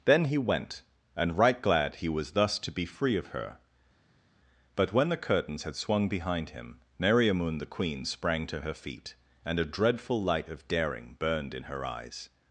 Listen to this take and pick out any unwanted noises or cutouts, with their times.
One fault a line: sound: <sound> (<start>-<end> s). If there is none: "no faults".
no faults